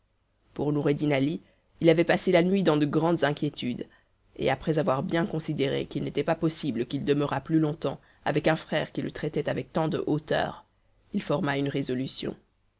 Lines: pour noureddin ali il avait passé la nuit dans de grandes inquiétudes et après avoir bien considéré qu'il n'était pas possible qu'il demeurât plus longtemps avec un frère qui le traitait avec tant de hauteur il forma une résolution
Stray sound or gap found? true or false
false